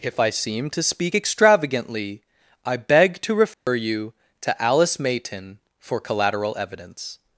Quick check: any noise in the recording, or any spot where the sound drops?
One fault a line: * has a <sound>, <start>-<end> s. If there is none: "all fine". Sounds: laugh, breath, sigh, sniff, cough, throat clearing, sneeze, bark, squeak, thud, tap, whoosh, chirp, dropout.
* has a dropout, 3.5-3.7 s